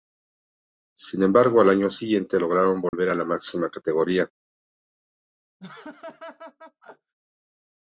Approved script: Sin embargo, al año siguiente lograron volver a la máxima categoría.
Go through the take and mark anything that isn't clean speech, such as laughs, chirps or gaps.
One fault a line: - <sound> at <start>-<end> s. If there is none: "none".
- dropout at 2.9-2.9 s
- laugh at 5.6-7.1 s